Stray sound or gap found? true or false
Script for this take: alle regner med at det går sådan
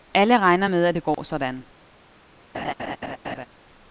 true